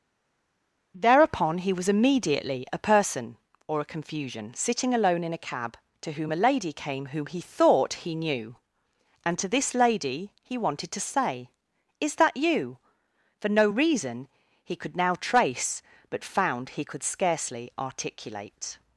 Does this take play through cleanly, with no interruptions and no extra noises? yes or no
yes